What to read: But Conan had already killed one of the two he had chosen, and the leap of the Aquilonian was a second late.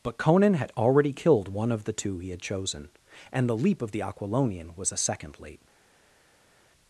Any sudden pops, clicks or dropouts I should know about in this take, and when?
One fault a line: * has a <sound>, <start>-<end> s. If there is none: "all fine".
all fine